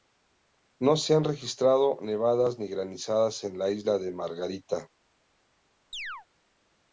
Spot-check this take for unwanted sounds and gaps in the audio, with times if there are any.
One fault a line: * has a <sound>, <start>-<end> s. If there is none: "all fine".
* has a chirp, 5.9-6.3 s